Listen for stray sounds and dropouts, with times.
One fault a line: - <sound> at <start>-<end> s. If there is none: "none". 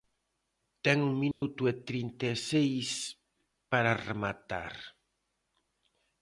- dropout at 1.3-1.4 s